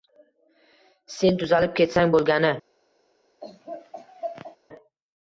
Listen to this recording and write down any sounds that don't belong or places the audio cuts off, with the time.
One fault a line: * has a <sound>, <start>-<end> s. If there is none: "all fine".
* has a laugh, 3.4-4.6 s